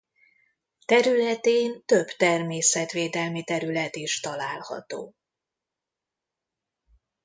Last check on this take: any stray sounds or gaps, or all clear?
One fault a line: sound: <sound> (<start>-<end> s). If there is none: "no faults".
no faults